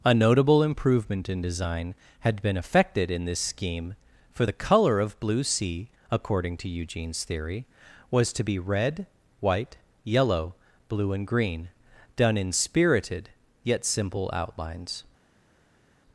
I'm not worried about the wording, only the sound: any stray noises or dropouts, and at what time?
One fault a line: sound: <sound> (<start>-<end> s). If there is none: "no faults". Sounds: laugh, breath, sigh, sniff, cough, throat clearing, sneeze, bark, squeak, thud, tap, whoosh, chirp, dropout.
no faults